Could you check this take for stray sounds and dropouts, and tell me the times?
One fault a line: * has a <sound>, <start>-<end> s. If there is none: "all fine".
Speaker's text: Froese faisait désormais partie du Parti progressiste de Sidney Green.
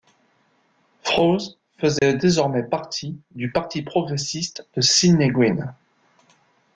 * has a dropout, 2.0-2.0 s